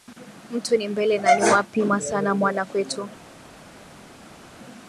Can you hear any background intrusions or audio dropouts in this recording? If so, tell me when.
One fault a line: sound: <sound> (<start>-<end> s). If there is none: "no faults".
no faults